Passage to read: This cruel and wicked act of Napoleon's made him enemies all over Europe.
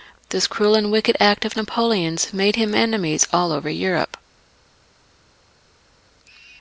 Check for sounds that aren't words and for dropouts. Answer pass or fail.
pass